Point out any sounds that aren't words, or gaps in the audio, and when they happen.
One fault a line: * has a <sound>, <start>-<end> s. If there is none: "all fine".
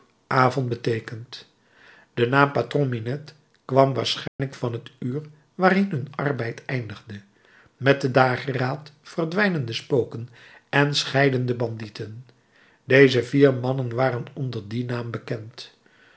* has a dropout, 4.3-4.4 s